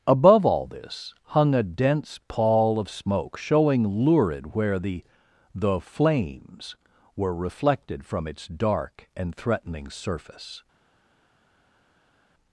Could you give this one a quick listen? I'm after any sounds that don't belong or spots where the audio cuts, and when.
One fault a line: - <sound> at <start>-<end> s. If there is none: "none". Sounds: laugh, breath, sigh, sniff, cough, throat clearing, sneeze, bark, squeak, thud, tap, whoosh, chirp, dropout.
none